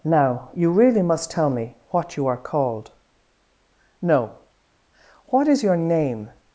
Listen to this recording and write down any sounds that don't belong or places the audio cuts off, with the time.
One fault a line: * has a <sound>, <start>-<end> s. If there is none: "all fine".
all fine